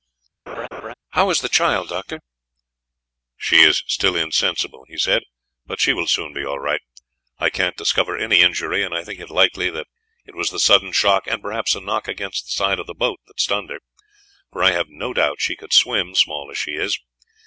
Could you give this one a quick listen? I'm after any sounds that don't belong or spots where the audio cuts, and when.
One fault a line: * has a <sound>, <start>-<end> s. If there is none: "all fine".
* has a laugh, 0.5-0.9 s